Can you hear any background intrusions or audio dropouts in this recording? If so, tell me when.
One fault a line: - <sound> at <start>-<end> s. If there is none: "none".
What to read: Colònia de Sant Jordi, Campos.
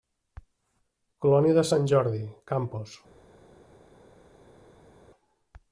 none